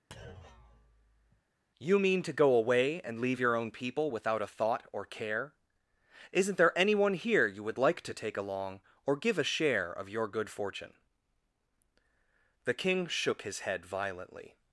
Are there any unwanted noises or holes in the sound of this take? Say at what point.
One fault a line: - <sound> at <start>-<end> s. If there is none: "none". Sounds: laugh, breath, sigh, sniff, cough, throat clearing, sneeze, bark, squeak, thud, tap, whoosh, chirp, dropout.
- thud at 0.1-1.4 s